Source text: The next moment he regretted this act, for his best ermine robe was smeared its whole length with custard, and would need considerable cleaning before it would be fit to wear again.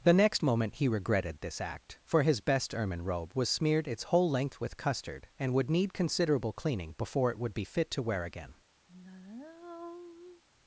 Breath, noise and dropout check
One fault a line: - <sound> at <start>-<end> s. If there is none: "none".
- sigh at 8.9-10.4 s